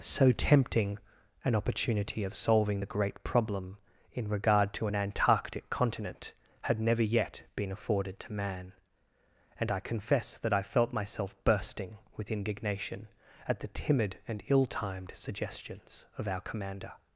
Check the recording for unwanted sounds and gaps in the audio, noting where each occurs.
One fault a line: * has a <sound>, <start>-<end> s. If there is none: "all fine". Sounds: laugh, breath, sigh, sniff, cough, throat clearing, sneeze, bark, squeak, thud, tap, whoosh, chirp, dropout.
all fine